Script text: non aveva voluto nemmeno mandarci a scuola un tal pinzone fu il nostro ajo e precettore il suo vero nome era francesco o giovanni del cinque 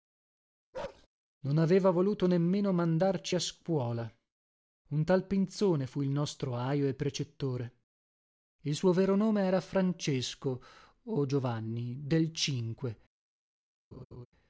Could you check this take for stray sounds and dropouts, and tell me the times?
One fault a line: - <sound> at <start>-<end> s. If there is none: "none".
- bark at 0.7-1.1 s
- laugh at 13.9-14.3 s